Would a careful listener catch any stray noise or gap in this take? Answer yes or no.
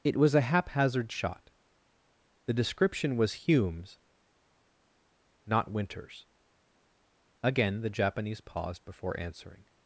no